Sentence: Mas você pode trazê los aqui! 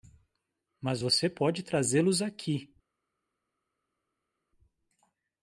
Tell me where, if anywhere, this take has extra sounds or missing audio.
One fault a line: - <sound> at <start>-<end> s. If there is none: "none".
none